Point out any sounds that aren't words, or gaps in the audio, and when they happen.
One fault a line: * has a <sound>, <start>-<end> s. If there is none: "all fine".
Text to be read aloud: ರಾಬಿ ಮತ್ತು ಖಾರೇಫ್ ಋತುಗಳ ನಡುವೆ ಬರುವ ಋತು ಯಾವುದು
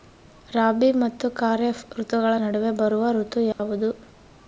* has a dropout, 3.5-3.6 s